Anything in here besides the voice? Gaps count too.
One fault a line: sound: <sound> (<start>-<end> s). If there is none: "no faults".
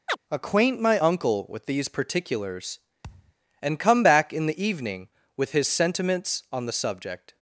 sound: chirp (0.1-0.2 s)
sound: thud (3.0-3.3 s)